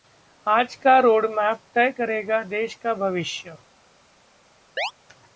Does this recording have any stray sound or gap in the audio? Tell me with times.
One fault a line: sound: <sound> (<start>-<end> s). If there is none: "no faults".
sound: chirp (4.8-4.9 s)